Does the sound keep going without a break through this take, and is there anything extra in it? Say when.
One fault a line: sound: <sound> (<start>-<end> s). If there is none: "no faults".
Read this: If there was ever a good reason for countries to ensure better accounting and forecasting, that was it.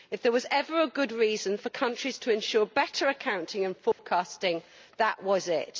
sound: dropout (3.9-4.0 s)